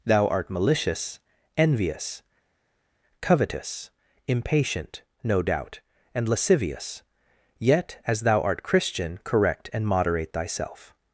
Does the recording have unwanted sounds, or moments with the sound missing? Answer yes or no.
no